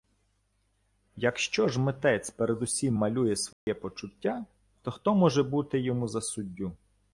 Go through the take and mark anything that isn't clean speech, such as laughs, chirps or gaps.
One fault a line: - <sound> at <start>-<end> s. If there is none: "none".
- dropout at 3.5-3.7 s